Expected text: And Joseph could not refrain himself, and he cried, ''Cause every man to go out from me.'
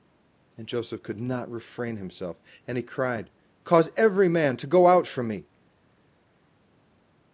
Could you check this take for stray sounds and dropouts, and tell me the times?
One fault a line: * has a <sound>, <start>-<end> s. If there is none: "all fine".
all fine